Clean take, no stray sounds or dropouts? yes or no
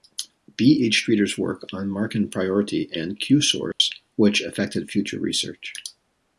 no